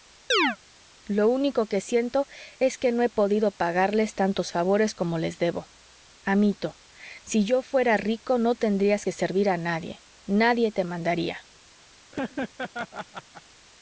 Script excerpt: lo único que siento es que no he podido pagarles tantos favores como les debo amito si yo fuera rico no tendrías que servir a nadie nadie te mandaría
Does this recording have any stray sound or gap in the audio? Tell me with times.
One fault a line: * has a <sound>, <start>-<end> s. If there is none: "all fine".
* has a chirp, 0.3-0.6 s
* has a laugh, 12.1-13.4 s